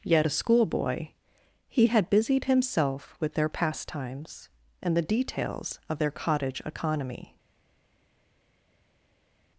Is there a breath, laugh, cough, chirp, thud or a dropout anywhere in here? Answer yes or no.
no